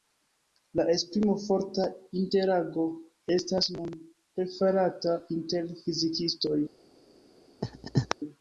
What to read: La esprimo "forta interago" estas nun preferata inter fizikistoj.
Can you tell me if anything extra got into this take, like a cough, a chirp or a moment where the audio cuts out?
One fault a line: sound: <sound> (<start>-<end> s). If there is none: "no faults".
sound: laugh (7.6-8.2 s)